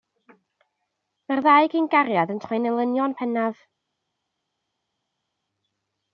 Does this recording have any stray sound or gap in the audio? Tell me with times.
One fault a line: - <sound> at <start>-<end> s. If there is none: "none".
none